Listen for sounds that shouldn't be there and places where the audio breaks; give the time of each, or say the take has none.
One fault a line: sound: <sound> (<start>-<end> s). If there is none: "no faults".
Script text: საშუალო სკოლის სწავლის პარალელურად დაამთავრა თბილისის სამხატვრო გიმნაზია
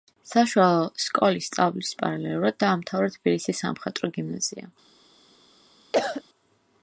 sound: cough (5.9-6.2 s)